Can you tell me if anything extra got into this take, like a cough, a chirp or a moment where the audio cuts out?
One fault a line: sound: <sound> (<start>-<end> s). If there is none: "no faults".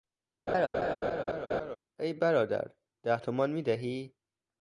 sound: laugh (0.5-1.8 s)